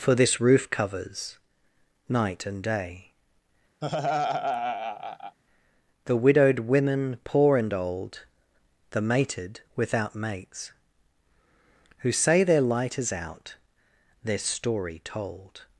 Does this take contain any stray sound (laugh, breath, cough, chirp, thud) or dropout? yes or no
yes